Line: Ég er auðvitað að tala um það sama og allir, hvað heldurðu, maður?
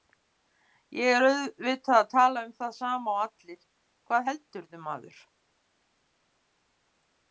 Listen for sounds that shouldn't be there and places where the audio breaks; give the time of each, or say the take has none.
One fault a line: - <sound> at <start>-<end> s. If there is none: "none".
none